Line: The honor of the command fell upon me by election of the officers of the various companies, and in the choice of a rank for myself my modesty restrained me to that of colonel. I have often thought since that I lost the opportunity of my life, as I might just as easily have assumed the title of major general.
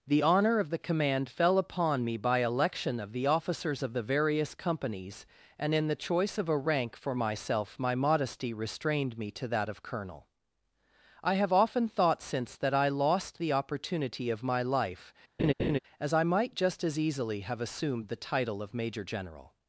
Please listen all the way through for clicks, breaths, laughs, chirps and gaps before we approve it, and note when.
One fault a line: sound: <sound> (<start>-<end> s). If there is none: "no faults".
sound: laugh (15.4-15.8 s)